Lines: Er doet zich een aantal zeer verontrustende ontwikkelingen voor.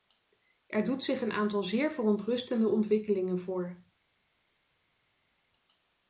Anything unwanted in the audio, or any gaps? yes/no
no